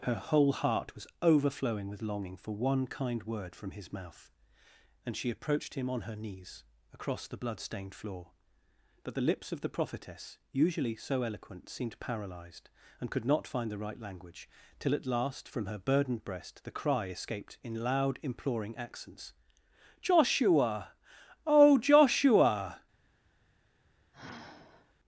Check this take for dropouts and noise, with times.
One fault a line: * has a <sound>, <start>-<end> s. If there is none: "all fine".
* has a sigh, 24.1-24.9 s